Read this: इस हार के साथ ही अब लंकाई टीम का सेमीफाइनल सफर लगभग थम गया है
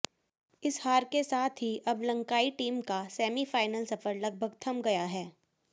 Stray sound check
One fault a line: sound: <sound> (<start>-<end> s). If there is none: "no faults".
no faults